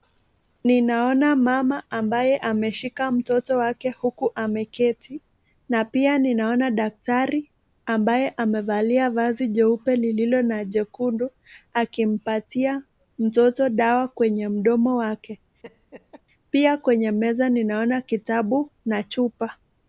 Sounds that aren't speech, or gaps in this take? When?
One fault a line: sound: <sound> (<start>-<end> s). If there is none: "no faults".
sound: laugh (15.6-16.2 s)